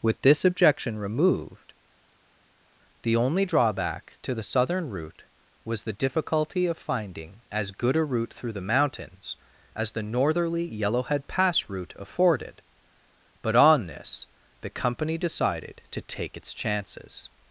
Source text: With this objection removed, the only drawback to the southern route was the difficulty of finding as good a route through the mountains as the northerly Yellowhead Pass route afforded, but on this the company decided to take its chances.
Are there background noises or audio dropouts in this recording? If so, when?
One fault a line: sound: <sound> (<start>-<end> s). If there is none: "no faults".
no faults